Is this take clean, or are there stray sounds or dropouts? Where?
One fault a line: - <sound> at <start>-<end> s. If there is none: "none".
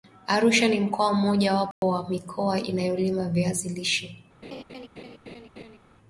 - dropout at 1.7-1.8 s
- laugh at 4.4-5.8 s